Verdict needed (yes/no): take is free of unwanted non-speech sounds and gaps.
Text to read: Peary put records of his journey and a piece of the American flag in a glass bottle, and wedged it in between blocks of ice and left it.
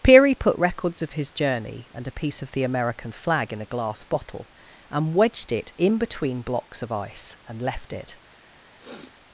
no